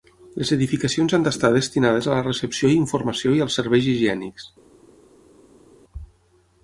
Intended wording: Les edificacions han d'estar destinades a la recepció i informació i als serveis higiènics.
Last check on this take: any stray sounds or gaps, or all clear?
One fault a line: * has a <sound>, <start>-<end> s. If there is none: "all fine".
all fine